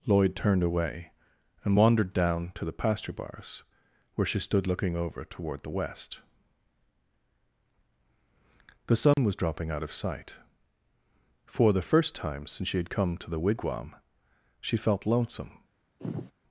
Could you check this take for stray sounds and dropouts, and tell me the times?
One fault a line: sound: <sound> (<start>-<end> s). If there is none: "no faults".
sound: dropout (9.1-9.2 s)
sound: sigh (16.0-16.3 s)